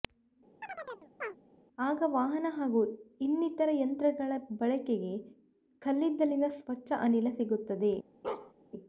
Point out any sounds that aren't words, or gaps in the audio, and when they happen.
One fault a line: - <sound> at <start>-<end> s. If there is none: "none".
- chirp at 0.6-1.4 s
- bark at 8.2-8.5 s